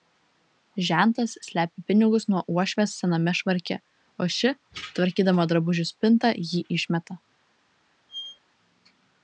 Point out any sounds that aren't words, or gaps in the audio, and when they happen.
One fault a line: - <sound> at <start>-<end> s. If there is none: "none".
- squeak at 8.1-8.4 s